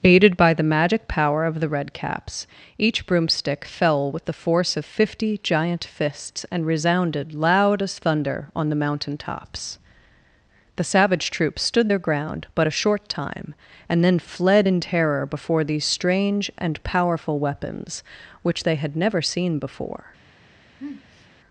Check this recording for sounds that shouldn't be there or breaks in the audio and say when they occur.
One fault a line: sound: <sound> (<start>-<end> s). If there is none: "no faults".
sound: sniff (20.8-21.3 s)